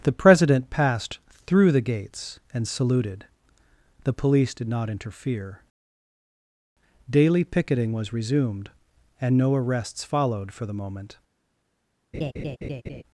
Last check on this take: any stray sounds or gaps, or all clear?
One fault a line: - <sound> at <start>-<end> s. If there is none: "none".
- laugh at 12.1-13.0 s